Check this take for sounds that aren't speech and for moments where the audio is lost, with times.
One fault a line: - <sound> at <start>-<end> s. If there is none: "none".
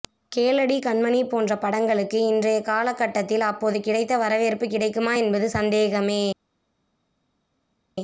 none